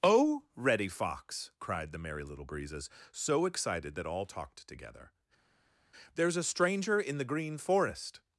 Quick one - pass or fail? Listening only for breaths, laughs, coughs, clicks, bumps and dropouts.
pass